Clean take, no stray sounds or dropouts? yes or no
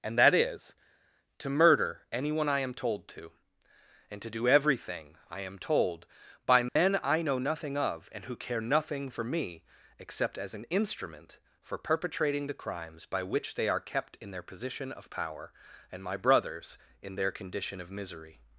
no